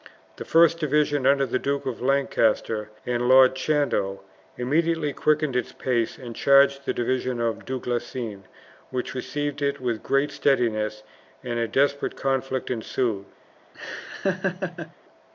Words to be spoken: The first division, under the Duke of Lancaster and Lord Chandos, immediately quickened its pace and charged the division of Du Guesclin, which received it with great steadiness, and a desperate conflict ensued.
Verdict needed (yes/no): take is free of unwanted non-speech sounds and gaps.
no